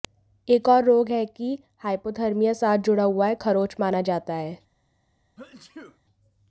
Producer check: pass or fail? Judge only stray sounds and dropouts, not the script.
fail